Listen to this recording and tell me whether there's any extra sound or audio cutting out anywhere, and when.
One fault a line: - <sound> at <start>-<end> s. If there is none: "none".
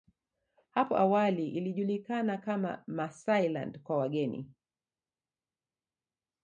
none